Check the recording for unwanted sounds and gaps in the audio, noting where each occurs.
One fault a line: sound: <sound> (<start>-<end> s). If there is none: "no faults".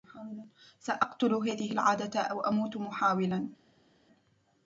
no faults